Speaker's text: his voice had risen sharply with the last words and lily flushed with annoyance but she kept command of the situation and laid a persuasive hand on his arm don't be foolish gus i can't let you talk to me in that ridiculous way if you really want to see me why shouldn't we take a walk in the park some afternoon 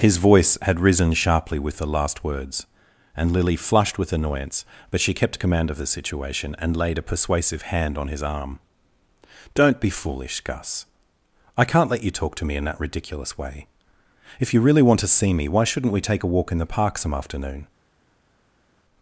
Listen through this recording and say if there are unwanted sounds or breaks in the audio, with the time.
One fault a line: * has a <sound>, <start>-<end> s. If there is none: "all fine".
all fine